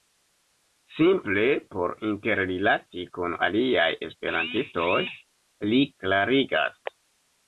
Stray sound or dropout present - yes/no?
no